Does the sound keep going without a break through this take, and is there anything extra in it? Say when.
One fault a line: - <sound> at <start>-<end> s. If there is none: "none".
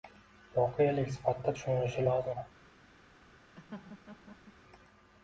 - laugh at 3.6-4.5 s